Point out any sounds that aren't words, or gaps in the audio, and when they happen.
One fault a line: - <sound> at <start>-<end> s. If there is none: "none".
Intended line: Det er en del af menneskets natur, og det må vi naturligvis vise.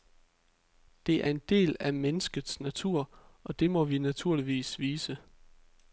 none